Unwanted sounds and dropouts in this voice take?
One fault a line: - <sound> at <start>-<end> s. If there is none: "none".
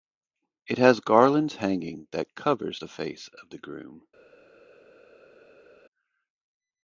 none